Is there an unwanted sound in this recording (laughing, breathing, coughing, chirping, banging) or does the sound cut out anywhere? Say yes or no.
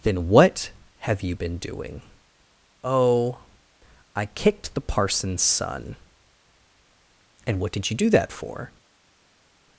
no